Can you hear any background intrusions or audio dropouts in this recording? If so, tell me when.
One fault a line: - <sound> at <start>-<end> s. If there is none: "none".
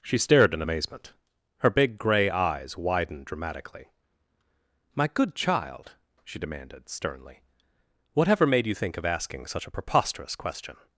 none